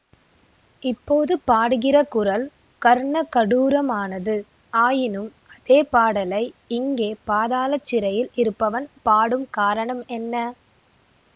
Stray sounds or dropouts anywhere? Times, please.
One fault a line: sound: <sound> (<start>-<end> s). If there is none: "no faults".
no faults